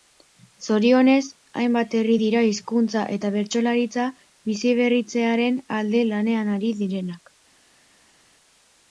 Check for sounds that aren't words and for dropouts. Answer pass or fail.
pass